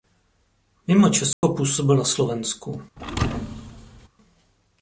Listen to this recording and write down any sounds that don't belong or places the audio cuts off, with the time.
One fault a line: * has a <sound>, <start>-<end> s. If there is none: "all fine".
* has a dropout, 1.3-1.4 s
* has a thud, 3.0-4.1 s